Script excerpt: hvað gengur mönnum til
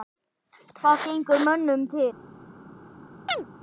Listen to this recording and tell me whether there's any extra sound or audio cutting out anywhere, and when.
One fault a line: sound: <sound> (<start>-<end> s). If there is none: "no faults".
sound: chirp (3.3-3.5 s)